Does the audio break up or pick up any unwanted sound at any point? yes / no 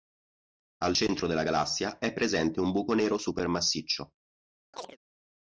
yes